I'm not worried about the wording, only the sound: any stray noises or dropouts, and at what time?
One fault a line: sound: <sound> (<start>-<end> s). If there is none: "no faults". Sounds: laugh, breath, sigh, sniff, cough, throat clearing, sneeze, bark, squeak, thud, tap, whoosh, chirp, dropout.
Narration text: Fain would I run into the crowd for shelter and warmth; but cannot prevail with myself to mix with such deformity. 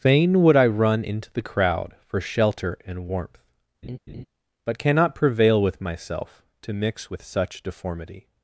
sound: laugh (3.8-4.3 s)